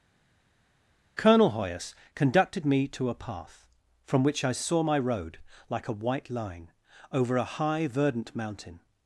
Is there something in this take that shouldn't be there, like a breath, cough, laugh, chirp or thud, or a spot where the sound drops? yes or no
no